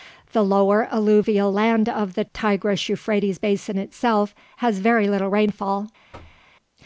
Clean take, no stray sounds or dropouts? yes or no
no